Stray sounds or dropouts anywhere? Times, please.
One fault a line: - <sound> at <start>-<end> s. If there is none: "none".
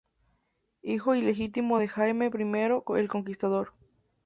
none